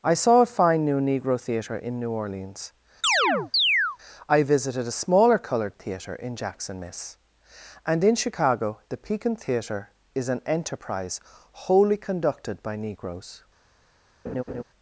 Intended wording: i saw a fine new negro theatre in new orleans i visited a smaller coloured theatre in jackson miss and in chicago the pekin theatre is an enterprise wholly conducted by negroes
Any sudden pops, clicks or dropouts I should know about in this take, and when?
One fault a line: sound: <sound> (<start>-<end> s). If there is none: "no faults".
sound: chirp (3.0-4.0 s)
sound: laugh (14.2-14.6 s)